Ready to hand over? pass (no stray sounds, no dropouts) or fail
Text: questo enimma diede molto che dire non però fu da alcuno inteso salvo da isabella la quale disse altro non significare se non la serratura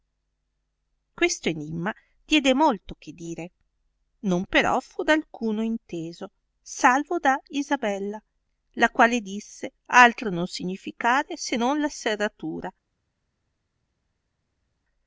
pass